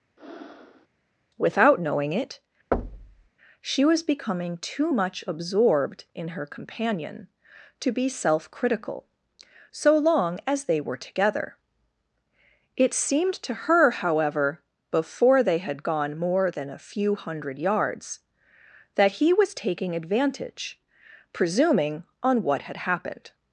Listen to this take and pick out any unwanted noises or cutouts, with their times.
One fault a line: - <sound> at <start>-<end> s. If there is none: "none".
- breath at 0.2-0.9 s
- thud at 2.7-3.3 s